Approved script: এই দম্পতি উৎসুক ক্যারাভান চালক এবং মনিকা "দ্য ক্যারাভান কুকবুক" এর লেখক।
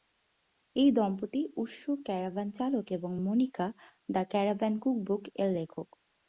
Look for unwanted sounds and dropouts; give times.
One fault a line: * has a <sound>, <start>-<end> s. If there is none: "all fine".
all fine